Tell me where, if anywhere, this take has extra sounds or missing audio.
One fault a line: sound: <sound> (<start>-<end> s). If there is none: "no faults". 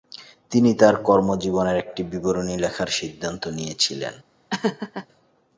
sound: laugh (4.5-5.1 s)